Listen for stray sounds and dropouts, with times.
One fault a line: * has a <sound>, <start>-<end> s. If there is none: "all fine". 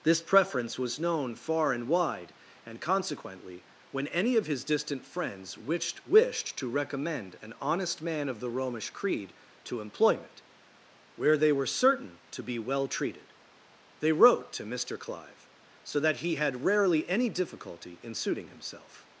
all fine